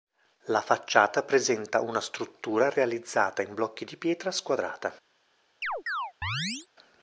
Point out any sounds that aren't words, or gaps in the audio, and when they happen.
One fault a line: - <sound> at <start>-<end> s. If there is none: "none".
- chirp at 5.6-6.7 s